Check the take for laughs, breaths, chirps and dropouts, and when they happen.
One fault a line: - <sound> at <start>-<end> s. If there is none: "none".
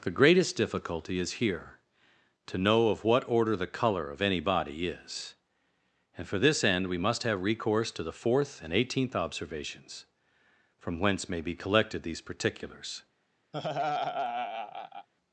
- laugh at 13.5-15.1 s